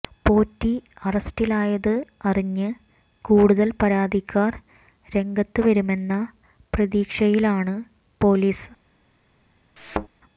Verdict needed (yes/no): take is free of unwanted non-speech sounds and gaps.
no